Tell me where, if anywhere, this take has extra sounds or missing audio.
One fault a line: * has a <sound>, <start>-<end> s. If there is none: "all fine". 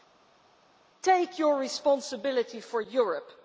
all fine